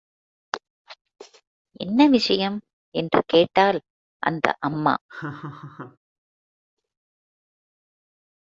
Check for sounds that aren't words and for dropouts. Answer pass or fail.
fail